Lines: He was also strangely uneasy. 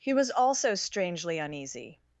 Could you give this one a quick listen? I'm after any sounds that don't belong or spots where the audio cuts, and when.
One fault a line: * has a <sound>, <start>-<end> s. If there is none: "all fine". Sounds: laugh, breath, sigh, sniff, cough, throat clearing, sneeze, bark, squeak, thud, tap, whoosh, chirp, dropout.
all fine